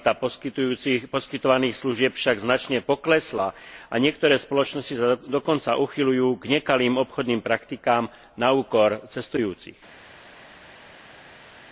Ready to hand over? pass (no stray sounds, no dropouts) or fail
pass